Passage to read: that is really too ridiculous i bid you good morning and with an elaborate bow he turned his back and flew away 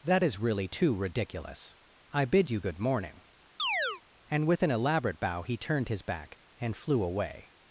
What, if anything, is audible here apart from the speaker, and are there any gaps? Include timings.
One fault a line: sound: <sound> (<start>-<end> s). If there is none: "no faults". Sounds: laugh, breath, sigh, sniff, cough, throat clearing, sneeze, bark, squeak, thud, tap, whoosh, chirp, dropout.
sound: chirp (3.6-4.0 s)